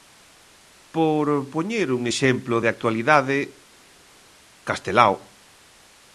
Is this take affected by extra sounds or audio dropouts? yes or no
no